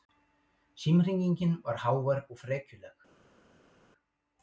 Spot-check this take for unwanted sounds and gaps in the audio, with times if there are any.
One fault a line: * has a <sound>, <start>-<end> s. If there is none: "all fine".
all fine